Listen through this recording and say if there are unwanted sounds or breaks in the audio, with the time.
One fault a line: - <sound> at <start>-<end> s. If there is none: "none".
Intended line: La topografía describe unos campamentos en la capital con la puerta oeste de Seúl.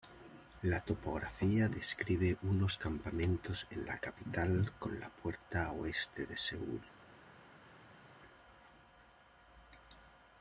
none